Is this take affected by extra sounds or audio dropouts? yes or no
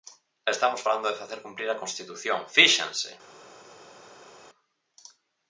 no